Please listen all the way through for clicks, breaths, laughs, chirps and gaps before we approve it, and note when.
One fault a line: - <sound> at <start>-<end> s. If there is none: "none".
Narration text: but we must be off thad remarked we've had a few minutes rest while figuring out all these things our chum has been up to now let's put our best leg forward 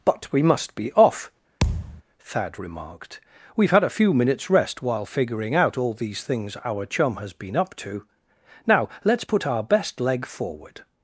- thud at 1.6-2.0 s